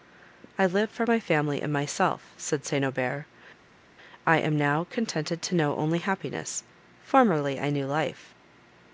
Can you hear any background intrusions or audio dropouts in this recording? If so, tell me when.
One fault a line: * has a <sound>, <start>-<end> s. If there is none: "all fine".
all fine